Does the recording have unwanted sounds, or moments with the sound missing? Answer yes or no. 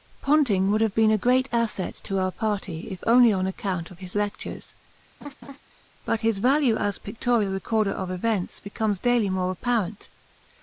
yes